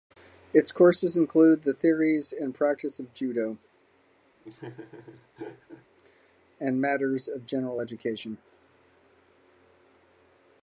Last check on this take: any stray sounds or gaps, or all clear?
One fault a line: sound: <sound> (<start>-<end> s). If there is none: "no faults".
sound: laugh (4.4-5.9 s)